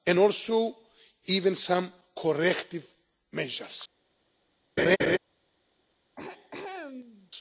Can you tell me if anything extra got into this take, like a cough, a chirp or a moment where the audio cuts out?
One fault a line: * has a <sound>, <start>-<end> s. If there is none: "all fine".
* has a laugh, 4.8-5.2 s
* has a throat clearing, 6.2-7.3 s